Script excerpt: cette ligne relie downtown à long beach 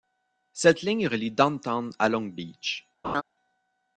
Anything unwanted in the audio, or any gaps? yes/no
yes